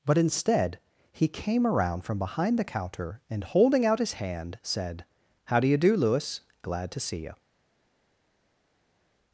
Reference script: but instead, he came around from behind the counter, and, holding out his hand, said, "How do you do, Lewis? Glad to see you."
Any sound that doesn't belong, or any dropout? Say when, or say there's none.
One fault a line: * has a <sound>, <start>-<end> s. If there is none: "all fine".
all fine